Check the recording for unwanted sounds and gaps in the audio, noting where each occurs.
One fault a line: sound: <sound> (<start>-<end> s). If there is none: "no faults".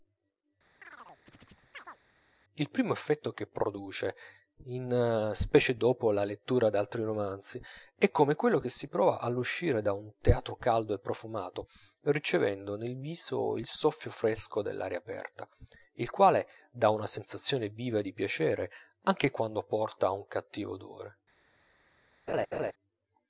sound: chirp (0.8-2.0 s)
sound: laugh (22.3-22.7 s)